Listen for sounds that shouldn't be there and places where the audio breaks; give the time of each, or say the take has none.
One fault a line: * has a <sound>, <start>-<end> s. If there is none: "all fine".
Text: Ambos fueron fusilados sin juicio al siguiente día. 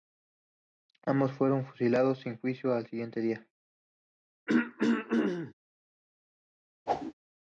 * has a throat clearing, 4.5-5.5 s
* has a whoosh, 6.9-7.1 s